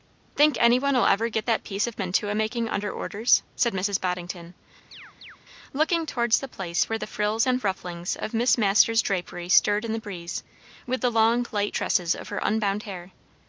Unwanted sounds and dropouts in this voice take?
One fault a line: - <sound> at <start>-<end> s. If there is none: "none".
- chirp at 4.9-5.4 s